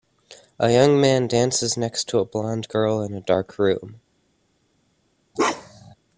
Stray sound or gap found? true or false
true